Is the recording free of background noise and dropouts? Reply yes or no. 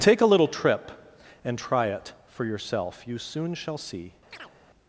no